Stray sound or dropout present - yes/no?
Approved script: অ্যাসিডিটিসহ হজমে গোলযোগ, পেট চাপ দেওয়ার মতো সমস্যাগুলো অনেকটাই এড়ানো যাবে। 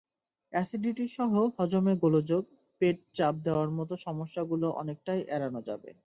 no